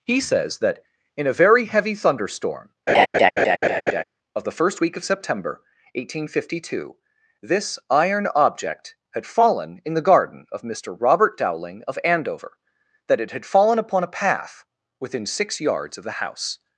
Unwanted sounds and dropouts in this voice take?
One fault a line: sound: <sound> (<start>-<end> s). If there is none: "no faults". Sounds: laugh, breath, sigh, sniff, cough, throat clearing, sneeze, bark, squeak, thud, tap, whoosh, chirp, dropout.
sound: laugh (2.9-4.0 s)